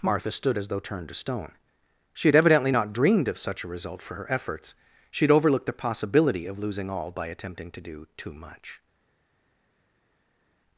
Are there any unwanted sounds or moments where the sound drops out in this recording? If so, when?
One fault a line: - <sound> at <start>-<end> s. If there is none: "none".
none